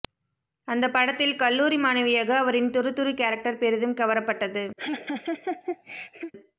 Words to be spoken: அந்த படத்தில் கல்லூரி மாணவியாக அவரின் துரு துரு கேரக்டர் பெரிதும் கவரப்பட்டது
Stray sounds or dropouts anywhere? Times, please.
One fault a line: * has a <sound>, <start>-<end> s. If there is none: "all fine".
* has a laugh, 4.8-6.3 s